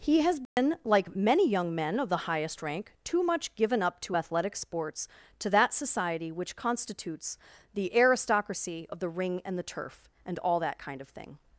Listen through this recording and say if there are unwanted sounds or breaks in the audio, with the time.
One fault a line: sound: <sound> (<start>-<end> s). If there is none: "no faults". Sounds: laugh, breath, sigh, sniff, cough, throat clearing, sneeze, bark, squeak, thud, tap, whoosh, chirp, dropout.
sound: dropout (0.5-0.6 s)